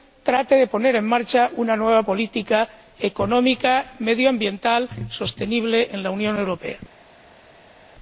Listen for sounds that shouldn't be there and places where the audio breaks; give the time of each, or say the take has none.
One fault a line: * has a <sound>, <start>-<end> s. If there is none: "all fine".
all fine